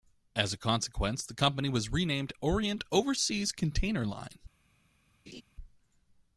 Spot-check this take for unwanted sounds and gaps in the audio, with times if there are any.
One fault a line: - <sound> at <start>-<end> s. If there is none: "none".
- laugh at 5.3-5.4 s